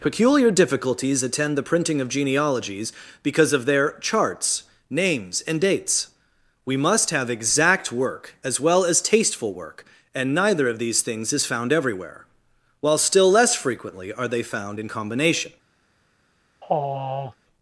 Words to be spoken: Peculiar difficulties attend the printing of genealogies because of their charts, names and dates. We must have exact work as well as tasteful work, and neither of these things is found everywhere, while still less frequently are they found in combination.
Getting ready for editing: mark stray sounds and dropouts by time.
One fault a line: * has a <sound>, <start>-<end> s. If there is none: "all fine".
* has a sigh, 16.6-17.4 s